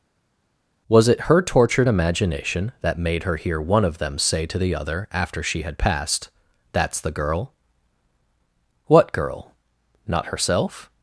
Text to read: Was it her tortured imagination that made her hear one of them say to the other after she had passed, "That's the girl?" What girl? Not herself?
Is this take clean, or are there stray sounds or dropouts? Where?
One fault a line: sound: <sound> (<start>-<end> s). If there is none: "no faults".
no faults